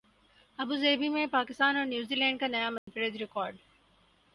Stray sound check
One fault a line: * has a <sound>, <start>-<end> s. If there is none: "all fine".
* has a dropout, 2.8-2.9 s